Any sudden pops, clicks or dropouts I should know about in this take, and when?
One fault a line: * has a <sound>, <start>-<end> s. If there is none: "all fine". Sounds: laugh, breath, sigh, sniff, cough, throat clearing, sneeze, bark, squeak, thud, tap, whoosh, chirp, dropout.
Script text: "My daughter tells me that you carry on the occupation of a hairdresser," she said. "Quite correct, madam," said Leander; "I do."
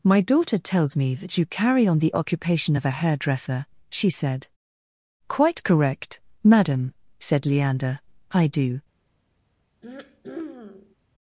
* has a throat clearing, 9.8-11.0 s